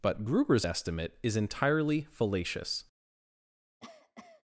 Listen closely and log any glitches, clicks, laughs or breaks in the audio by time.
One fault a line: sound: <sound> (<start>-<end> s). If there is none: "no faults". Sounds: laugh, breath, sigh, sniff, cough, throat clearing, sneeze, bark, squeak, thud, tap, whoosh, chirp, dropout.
sound: cough (3.8-4.4 s)